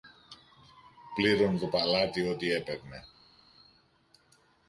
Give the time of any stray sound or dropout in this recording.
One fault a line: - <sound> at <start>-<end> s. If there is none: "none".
none